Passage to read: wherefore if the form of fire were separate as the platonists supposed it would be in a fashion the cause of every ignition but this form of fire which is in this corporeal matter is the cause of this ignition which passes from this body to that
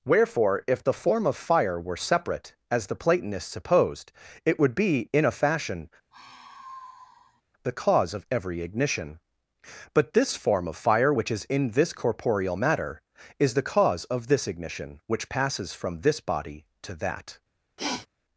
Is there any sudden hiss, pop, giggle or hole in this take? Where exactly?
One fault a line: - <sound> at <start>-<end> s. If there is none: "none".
- sigh at 6.1-7.4 s
- sniff at 17.8-18.1 s